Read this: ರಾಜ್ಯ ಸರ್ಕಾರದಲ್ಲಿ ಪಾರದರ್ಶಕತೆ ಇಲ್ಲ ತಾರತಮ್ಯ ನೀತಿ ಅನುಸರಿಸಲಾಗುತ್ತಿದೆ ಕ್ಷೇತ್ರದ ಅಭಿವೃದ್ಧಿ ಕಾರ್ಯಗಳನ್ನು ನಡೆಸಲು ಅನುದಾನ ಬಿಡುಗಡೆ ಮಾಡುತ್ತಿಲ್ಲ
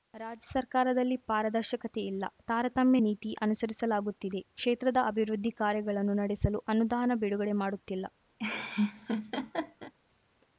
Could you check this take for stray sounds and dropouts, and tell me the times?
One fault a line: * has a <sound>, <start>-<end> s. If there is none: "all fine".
* has a laugh, 8.4-9.9 s